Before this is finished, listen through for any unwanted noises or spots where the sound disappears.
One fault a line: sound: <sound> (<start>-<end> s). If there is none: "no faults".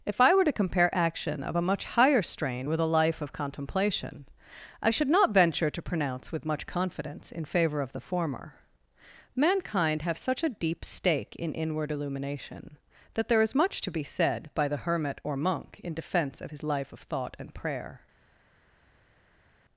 no faults